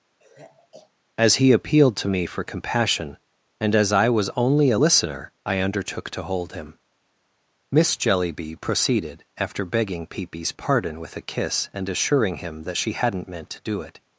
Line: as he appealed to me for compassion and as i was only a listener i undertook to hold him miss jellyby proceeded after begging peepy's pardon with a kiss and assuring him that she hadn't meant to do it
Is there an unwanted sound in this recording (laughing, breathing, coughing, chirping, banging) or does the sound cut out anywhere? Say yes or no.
yes